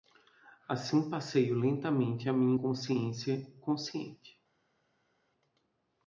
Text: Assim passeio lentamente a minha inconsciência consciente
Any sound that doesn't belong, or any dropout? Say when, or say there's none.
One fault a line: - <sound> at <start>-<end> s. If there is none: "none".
none